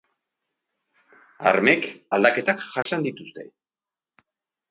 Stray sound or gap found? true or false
true